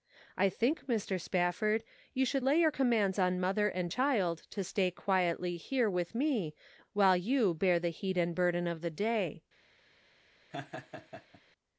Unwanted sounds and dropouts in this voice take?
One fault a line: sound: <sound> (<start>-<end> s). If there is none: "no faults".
sound: laugh (10.5-11.4 s)